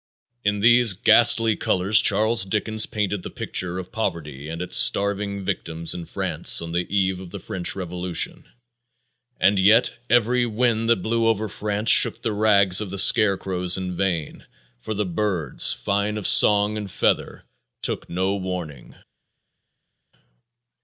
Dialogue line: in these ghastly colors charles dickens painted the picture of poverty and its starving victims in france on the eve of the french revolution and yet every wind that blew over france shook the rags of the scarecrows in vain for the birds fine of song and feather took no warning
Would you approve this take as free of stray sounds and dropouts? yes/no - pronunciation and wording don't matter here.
yes